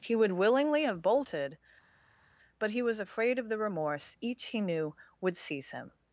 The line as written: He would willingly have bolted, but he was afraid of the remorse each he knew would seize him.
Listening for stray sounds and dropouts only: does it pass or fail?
pass